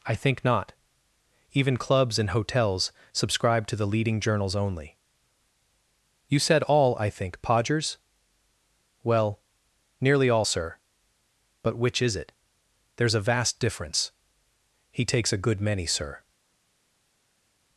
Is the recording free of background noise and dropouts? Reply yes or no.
yes